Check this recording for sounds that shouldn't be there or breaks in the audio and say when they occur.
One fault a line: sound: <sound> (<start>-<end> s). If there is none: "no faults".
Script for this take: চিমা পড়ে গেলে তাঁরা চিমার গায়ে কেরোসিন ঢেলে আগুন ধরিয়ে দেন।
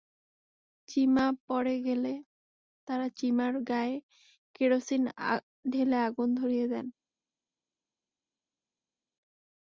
no faults